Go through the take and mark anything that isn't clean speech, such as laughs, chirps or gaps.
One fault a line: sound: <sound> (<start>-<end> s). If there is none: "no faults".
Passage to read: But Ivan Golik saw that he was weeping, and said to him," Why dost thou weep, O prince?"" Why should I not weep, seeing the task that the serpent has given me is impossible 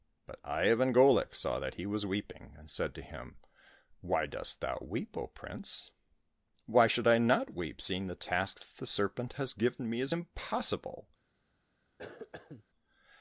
sound: cough (12.0-12.6 s)